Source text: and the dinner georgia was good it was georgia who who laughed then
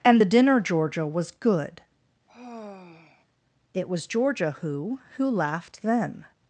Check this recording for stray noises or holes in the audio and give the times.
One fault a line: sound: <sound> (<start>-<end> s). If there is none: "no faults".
sound: sigh (2.3-3.3 s)